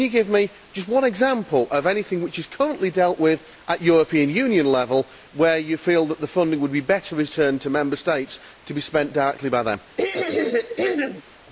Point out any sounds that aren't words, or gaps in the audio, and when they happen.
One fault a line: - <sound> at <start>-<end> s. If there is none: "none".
- throat clearing at 10.0-11.2 s